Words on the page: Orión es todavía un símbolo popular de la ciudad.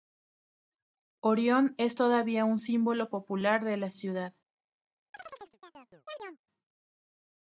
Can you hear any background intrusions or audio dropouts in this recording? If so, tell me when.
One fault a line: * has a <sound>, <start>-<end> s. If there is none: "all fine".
* has a chirp, 5.1-6.4 s